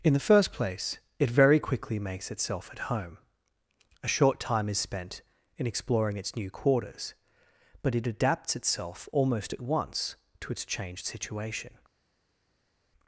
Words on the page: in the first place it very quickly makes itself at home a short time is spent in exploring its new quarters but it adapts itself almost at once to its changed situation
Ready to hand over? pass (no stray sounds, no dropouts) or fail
pass